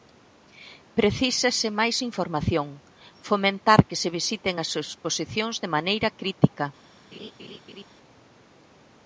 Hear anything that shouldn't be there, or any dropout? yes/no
yes